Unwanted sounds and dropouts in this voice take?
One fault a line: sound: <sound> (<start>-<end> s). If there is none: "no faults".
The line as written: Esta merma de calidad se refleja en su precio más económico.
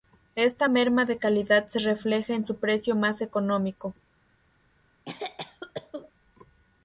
sound: cough (5.1-6.1 s)